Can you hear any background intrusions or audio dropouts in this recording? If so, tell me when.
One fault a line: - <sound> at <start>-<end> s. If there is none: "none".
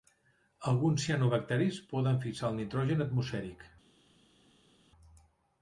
none